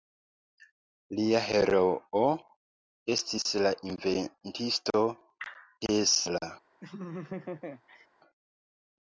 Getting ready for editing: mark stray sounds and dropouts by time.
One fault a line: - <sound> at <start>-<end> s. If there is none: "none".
- laugh at 6.8-8.1 s